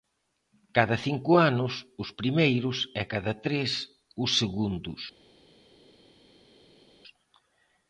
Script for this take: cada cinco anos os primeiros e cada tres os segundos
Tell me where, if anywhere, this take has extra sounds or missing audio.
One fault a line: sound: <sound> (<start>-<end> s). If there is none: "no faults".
no faults